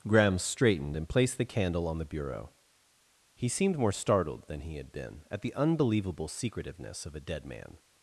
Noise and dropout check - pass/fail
pass